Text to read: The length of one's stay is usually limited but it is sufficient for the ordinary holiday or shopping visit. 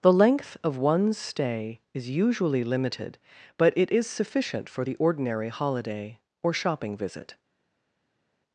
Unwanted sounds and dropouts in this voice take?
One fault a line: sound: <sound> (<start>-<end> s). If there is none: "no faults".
no faults